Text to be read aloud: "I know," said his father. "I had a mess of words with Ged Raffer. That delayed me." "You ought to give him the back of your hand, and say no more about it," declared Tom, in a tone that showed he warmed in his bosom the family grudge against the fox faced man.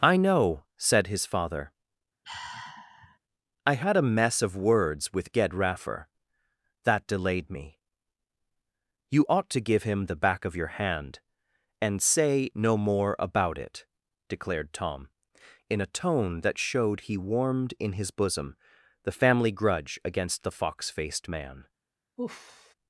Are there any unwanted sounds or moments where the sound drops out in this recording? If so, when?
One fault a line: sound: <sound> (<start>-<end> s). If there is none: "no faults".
sound: sigh (2.2-3.2 s)
sound: sigh (22.2-22.7 s)